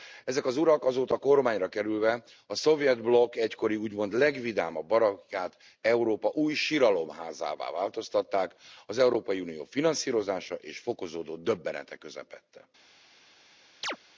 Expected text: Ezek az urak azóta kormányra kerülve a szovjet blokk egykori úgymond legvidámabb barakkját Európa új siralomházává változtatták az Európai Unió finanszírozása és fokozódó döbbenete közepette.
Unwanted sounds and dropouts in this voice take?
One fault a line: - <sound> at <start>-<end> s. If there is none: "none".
- chirp at 13.8-14.0 s